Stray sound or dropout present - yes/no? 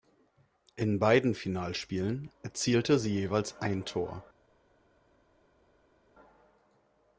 no